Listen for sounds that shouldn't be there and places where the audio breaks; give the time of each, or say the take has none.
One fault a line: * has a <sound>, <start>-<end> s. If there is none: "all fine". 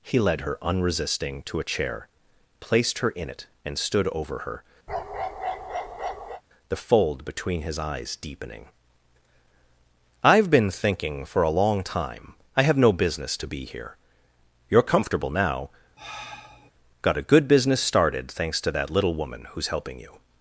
* has a bark, 4.9-6.4 s
* has a sigh, 16.0-16.7 s